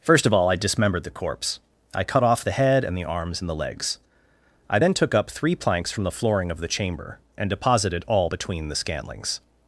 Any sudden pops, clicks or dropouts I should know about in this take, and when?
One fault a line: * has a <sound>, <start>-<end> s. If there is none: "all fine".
all fine